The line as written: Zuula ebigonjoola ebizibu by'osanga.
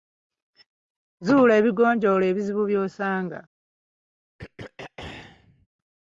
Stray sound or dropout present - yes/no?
yes